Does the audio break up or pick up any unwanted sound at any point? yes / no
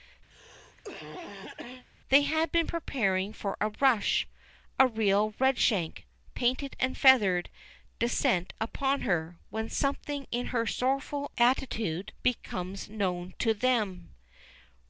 yes